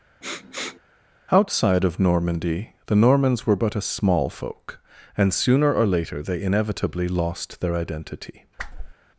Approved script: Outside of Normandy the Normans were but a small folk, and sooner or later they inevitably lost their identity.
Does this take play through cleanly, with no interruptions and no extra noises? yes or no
no